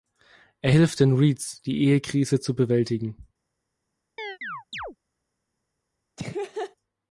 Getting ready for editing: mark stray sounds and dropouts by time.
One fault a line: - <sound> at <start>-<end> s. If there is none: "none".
- chirp at 4.2-5.0 s
- laugh at 6.2-6.8 s